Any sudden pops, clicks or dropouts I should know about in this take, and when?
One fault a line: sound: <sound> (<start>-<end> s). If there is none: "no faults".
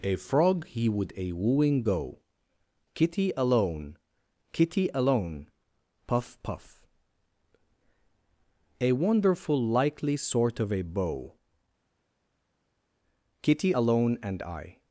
no faults